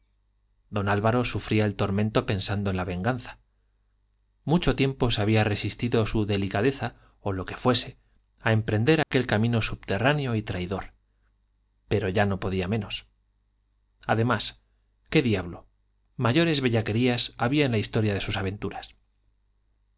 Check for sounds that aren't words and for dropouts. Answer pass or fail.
fail